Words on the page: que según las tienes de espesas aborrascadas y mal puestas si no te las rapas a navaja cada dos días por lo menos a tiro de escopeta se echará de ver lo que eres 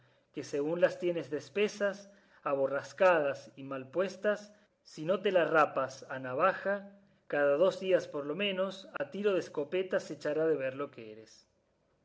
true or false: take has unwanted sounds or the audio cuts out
true